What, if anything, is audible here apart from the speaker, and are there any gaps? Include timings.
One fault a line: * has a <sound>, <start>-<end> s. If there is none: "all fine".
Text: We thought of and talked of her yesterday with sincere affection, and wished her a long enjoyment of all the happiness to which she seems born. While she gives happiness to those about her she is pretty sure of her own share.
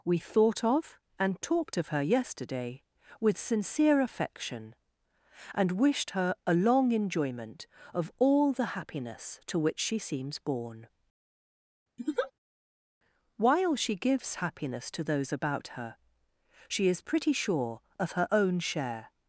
* has a laugh, 12.0-12.3 s